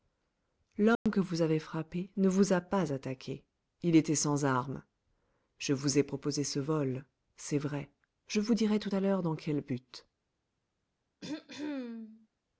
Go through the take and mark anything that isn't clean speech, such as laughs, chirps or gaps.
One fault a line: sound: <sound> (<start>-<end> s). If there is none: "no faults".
sound: dropout (1.0-1.1 s)
sound: throat clearing (11.2-12.3 s)